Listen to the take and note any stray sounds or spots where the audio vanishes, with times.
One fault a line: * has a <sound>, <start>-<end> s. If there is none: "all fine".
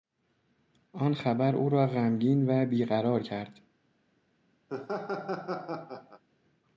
* has a laugh, 4.7-6.2 s